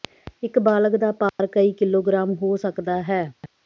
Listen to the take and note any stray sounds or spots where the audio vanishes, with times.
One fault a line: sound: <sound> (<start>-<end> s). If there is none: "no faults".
sound: dropout (1.3-1.4 s)